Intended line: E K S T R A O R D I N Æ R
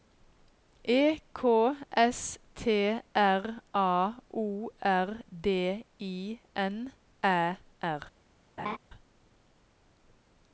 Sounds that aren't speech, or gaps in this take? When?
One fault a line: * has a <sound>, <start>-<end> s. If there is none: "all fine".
* has a laugh, 8.6-8.8 s